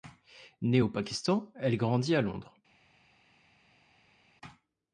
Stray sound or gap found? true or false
false